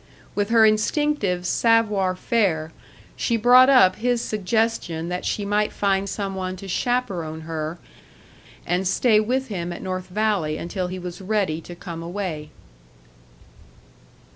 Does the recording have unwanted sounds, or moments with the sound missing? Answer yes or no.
no